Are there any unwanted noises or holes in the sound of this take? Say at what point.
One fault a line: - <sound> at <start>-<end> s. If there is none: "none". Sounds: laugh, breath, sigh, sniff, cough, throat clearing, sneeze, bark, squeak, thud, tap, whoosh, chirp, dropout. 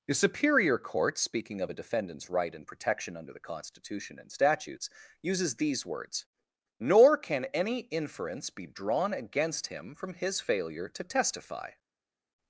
none